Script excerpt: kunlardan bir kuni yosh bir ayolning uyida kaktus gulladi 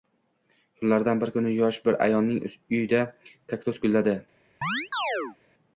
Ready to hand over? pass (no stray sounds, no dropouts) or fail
fail